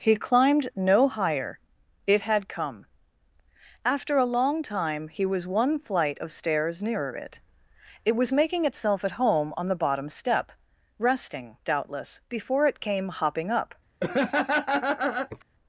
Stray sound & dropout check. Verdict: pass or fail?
fail